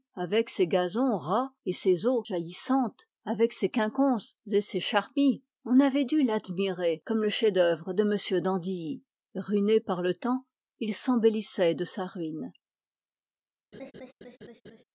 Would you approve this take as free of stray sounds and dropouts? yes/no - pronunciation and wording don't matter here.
no